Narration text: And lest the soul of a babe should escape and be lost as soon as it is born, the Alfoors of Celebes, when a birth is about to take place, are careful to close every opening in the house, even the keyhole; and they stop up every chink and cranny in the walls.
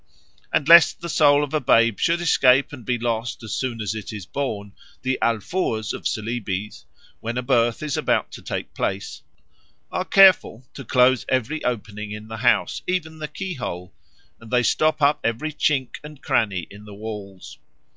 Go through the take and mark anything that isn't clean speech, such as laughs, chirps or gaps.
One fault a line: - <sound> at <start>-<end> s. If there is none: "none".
none